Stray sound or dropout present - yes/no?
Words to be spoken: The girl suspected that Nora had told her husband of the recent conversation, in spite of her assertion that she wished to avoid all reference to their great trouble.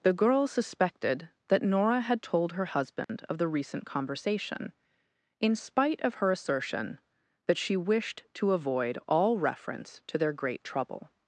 yes